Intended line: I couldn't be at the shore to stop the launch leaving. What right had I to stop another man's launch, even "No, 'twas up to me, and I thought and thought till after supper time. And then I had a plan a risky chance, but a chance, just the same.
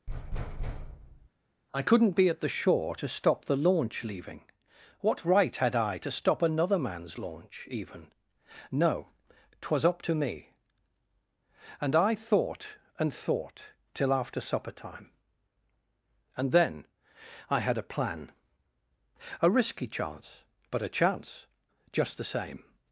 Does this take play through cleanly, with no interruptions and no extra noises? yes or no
no